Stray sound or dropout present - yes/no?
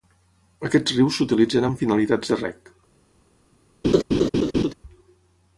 yes